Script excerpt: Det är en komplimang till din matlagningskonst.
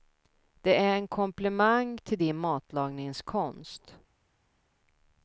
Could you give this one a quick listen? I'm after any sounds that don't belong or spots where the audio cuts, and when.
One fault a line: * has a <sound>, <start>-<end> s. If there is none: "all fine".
all fine